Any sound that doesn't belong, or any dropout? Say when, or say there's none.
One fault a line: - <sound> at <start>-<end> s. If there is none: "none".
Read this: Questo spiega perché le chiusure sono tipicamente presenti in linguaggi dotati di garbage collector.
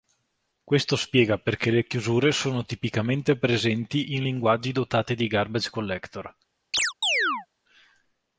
- chirp at 6.7-7.5 s